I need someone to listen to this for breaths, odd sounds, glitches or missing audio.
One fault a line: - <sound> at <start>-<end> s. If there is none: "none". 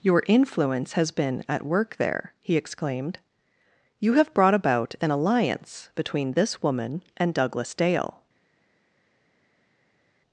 none